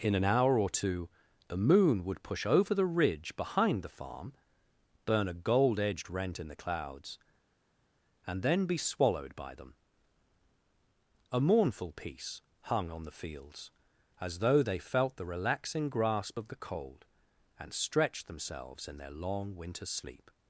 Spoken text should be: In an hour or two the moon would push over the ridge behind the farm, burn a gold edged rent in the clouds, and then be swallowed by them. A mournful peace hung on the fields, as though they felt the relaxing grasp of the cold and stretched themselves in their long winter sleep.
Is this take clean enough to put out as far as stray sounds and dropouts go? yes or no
yes